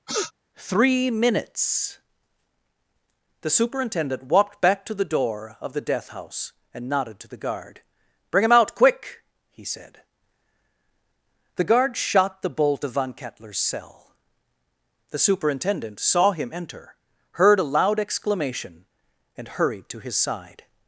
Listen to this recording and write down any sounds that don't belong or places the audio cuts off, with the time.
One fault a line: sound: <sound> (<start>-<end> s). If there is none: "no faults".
sound: sniff (0.1-0.3 s)